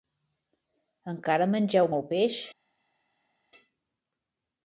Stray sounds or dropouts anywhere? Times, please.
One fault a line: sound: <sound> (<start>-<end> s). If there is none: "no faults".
no faults